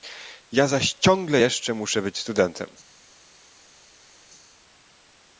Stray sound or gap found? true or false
false